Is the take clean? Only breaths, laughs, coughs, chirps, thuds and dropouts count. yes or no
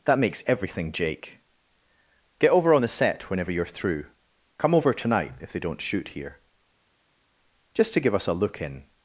yes